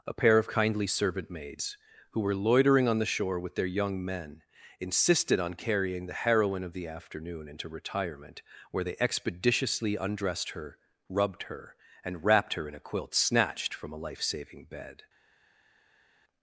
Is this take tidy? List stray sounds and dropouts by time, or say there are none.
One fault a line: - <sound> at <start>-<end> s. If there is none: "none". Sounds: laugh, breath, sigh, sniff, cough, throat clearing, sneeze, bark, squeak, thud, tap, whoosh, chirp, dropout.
none